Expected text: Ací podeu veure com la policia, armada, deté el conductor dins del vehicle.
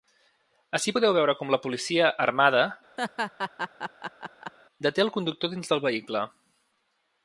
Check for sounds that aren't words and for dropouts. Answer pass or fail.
fail